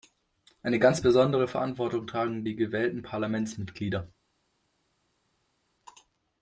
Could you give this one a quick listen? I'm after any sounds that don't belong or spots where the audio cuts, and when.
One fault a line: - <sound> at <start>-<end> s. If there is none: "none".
none